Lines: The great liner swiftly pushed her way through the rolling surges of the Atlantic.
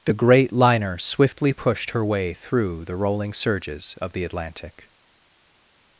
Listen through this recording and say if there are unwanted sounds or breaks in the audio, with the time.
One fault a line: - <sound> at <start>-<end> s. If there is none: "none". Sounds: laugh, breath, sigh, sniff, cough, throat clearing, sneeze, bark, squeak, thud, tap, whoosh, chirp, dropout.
none